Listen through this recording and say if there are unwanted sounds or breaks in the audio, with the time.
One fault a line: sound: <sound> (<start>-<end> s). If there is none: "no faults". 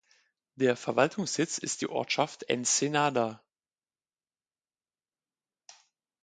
no faults